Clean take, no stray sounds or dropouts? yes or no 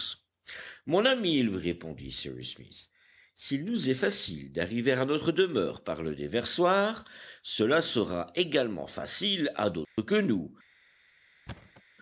no